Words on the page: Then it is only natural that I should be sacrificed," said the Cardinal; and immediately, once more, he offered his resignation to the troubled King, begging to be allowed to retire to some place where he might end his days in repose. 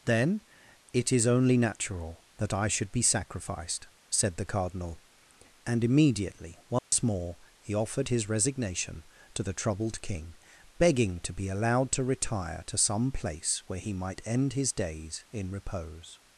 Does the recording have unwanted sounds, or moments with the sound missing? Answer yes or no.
yes